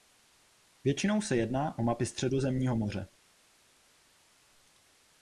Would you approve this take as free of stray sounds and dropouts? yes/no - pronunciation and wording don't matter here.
yes